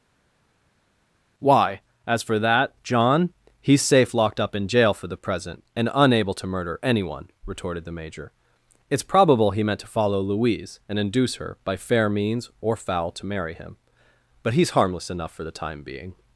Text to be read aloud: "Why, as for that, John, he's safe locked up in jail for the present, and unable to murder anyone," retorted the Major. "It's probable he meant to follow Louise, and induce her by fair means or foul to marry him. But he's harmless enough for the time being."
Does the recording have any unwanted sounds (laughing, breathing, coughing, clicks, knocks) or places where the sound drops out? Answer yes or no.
no